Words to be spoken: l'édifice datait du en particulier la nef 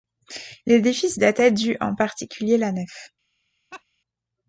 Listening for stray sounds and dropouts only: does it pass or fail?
fail